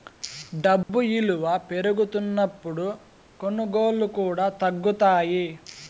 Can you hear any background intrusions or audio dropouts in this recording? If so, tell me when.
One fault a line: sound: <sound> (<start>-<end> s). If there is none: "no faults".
sound: dropout (0.8-0.9 s)